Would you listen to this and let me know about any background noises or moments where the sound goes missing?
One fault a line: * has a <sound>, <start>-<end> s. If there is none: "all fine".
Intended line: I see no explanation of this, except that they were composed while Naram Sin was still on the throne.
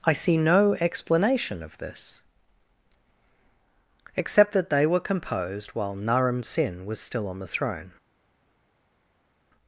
all fine